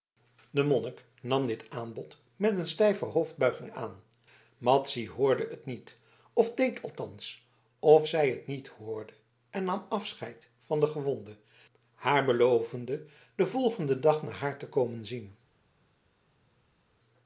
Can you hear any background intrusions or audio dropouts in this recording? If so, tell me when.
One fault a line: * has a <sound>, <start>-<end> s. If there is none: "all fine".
all fine